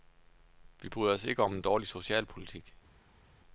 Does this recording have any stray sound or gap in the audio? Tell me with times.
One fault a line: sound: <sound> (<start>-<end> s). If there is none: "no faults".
no faults